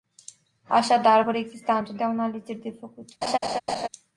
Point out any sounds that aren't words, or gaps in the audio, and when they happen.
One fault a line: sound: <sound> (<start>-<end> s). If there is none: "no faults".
sound: laugh (3.2-3.9 s)